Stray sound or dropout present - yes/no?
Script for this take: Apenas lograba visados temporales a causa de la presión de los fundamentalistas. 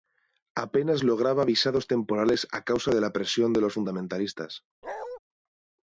yes